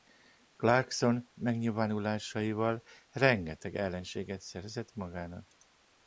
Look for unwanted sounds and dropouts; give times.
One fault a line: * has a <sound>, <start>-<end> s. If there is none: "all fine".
all fine